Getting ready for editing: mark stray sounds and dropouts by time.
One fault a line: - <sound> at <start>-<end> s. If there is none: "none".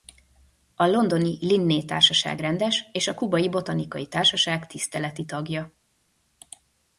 none